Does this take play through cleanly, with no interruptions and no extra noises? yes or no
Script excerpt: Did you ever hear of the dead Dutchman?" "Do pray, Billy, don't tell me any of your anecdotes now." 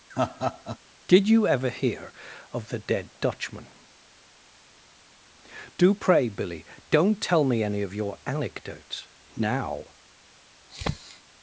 no